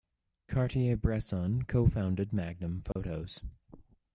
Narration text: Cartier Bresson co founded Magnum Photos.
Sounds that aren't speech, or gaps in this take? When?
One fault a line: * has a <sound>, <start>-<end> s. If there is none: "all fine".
* has a dropout, 2.9-3.0 s